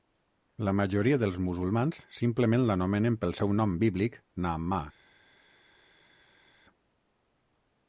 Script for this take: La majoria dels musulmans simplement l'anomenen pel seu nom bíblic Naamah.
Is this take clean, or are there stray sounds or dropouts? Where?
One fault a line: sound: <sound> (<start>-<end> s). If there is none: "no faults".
no faults